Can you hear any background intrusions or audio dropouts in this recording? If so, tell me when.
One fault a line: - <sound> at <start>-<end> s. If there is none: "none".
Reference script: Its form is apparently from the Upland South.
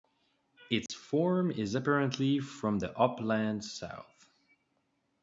- dropout at 0.9-0.9 s